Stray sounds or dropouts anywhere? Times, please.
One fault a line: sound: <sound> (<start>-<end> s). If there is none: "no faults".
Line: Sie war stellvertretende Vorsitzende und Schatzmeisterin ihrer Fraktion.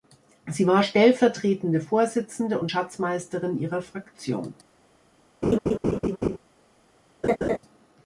sound: laugh (5.4-6.4 s)
sound: laugh (7.2-7.6 s)